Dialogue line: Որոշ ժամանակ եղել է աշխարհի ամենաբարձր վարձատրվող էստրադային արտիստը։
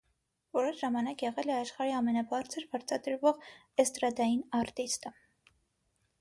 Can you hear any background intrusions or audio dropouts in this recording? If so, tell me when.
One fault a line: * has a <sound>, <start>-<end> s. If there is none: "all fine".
all fine